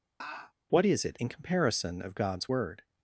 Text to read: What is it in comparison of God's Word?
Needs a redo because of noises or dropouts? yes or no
yes